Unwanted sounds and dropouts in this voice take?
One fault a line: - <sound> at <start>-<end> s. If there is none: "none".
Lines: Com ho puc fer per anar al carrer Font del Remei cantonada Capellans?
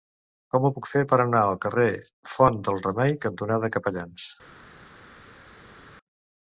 none